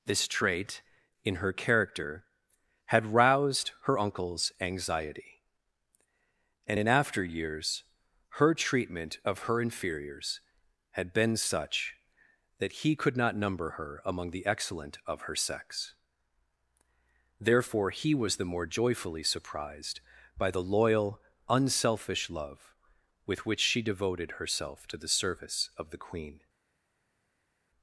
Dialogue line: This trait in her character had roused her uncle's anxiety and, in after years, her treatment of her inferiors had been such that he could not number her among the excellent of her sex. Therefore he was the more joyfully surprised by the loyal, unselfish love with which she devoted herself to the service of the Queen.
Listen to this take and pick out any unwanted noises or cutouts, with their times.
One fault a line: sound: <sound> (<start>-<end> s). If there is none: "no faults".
no faults